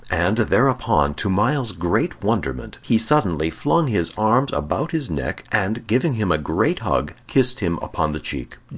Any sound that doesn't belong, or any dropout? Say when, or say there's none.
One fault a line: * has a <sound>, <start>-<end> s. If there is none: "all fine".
all fine